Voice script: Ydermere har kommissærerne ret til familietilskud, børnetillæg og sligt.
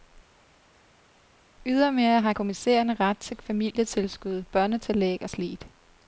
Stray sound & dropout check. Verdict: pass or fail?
pass